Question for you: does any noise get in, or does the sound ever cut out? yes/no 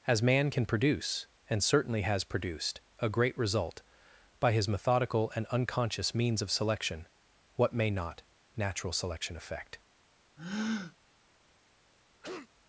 yes